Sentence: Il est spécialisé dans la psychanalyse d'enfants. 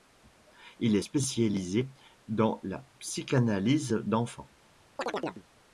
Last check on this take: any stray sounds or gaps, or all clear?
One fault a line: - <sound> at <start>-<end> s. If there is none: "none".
- chirp at 5.0-5.4 s